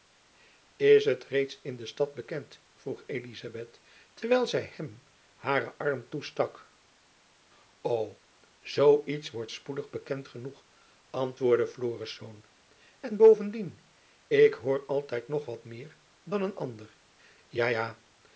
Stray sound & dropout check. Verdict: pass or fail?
pass